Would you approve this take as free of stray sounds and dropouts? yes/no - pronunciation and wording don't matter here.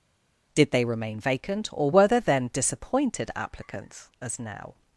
yes